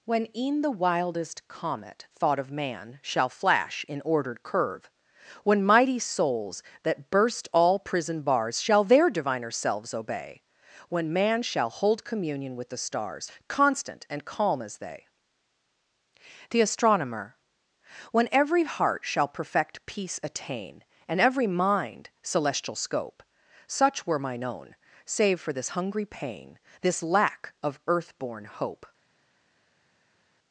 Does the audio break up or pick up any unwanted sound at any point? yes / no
no